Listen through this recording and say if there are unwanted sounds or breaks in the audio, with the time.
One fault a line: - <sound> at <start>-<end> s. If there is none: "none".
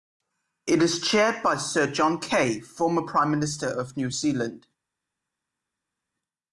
none